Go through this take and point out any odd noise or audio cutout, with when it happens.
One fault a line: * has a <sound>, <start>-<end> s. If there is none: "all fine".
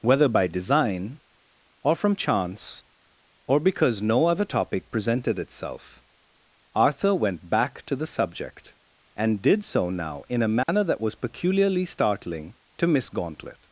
* has a dropout, 10.6-10.7 s